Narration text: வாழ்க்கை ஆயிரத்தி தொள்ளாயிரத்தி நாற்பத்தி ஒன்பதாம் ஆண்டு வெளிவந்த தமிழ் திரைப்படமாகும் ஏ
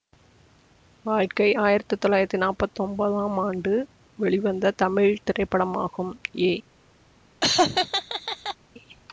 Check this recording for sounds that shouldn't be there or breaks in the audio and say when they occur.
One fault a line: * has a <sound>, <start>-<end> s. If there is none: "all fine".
* has a laugh, 7.4-8.6 s